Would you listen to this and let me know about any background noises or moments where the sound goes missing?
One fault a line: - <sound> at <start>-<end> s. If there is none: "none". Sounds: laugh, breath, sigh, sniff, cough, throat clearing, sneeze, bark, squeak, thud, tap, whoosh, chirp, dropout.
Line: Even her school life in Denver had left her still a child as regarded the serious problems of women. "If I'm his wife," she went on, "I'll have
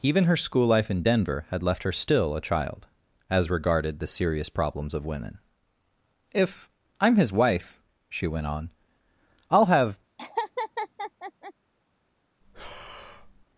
- laugh at 10.2-11.5 s
- breath at 12.4-13.5 s